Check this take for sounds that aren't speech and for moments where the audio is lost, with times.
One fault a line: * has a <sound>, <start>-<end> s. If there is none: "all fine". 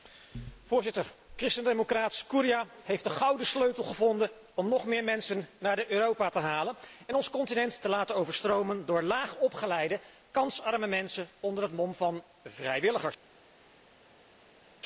all fine